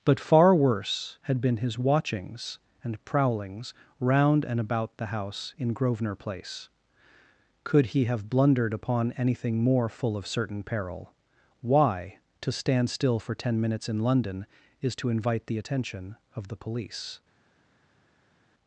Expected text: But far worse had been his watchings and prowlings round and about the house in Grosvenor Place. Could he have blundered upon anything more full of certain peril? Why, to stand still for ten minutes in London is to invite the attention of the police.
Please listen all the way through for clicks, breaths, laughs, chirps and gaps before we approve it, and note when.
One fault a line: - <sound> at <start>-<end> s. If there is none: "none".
none